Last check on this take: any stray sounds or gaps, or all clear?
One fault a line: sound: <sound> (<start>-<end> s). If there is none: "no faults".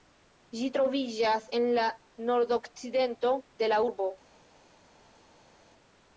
no faults